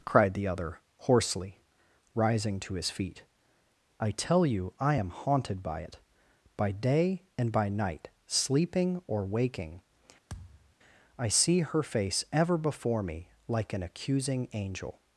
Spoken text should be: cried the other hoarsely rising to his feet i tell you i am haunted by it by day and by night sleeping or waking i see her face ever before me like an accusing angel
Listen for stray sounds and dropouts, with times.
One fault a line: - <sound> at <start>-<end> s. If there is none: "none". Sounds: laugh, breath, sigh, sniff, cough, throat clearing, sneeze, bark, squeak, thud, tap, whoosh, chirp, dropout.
- thud at 10.3-10.8 s